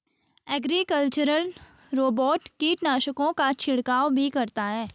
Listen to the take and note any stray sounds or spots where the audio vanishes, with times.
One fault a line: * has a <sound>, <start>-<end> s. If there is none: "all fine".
all fine